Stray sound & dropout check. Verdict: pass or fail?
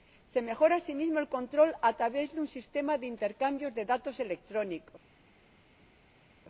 pass